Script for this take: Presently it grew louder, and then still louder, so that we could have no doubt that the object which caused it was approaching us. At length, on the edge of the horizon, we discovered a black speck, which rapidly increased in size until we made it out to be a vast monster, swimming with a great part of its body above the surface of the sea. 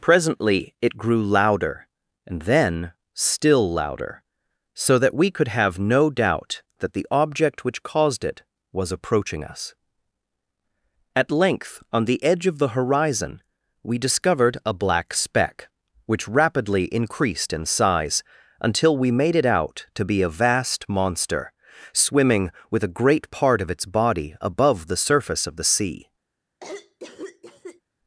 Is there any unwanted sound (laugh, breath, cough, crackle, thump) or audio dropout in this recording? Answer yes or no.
yes